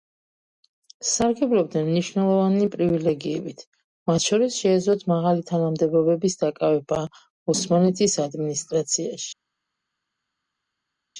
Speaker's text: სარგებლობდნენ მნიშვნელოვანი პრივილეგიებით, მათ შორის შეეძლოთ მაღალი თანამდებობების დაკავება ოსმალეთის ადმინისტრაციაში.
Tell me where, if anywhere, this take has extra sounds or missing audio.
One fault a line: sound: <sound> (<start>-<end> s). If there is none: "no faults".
no faults